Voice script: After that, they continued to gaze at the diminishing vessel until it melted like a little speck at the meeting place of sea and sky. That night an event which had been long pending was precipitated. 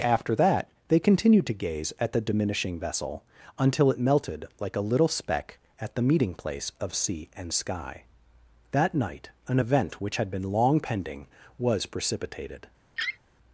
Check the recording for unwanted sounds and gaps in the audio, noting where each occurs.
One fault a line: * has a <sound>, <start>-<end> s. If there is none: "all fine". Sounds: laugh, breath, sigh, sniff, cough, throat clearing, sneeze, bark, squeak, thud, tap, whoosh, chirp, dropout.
* has a laugh, 13.0-13.2 s